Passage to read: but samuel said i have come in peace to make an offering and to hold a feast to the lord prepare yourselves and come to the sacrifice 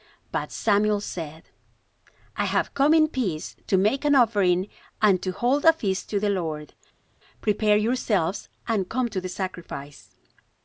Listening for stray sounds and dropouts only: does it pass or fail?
pass